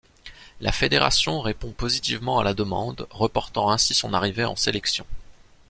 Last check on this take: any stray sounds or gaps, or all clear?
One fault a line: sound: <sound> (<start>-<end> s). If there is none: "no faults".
no faults